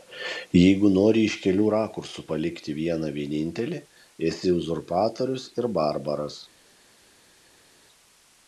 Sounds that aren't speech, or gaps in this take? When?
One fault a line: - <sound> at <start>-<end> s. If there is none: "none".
none